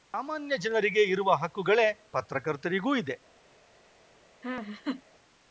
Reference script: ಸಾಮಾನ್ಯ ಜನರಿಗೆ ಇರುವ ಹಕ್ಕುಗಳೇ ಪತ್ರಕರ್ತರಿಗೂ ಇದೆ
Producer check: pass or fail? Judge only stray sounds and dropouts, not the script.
fail